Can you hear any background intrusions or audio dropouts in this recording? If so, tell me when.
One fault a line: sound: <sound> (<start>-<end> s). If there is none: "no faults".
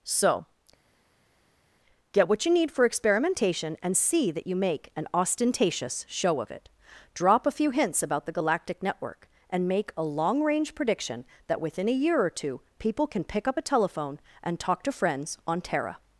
no faults